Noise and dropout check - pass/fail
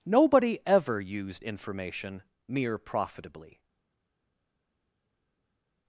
pass